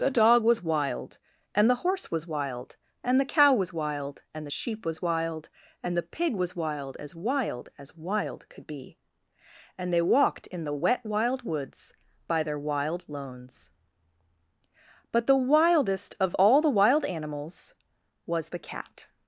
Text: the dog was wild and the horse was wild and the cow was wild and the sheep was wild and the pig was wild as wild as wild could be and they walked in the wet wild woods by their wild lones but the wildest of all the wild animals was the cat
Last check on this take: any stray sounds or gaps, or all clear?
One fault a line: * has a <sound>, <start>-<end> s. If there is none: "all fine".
all fine